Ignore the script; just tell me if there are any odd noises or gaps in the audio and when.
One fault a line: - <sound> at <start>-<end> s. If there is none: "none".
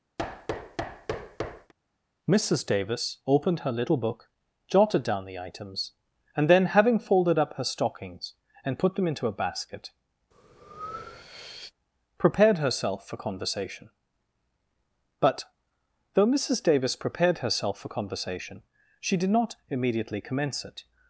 - thud at 0.2-1.7 s
- breath at 10.3-11.7 s